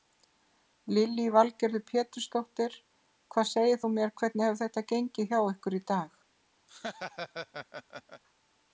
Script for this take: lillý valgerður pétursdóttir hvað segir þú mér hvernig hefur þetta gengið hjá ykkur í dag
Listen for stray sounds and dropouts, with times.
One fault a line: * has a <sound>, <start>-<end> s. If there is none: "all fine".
* has a laugh, 6.7-8.2 s